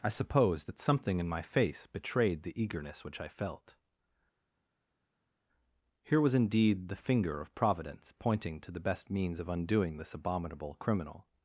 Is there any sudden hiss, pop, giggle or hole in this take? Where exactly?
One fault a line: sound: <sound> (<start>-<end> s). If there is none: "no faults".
no faults